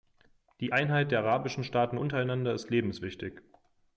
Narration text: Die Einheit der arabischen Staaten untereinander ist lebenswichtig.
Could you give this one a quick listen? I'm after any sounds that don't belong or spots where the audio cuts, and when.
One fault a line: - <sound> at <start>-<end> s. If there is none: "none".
none